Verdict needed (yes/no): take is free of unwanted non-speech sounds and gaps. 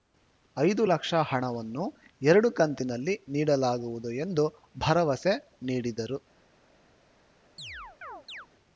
no